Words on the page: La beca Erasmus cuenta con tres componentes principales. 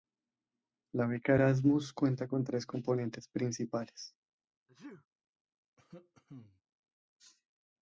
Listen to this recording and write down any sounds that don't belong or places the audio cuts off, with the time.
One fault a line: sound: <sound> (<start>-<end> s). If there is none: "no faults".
sound: sneeze (4.7-5.1 s)
sound: cough (5.8-6.6 s)